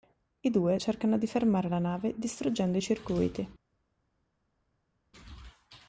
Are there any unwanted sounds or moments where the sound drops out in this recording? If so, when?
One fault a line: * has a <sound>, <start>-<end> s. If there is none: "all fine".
all fine